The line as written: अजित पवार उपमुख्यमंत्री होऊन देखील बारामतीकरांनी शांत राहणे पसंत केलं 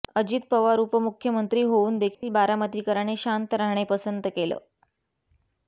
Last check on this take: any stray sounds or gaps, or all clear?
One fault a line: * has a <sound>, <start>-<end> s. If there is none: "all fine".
* has a dropout, 2.1-2.2 s